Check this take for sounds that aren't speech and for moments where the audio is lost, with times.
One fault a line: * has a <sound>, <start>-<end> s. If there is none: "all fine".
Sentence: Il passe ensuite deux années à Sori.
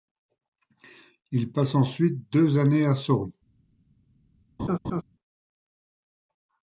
* has a laugh, 4.6-5.0 s